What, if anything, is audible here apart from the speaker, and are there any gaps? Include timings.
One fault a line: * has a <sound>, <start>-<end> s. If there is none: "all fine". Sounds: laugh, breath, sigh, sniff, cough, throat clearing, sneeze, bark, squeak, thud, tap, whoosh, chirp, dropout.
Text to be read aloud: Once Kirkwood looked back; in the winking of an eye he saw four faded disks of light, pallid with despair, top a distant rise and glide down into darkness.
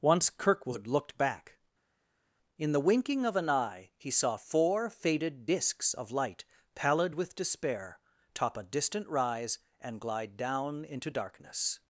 all fine